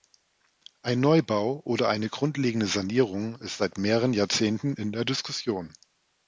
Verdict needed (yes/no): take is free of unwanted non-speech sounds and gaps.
yes